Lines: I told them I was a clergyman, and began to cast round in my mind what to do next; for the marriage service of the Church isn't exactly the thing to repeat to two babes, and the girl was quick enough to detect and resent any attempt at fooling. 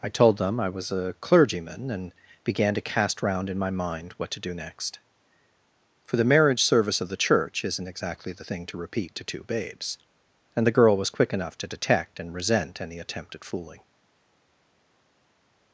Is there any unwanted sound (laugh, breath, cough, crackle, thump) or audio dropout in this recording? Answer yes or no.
no